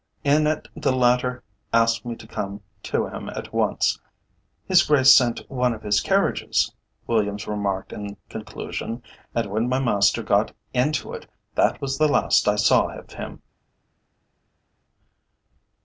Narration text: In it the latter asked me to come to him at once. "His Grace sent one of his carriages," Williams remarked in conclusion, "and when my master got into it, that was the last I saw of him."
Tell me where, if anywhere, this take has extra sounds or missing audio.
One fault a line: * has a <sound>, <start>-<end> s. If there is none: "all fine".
all fine